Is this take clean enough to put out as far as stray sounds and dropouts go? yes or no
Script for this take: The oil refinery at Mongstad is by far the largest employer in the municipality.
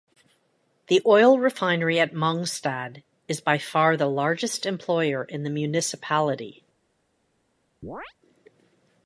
no